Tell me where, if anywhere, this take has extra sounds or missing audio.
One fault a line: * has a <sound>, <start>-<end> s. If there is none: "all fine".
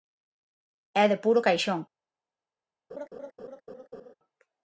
* has a laugh, 2.9-4.1 s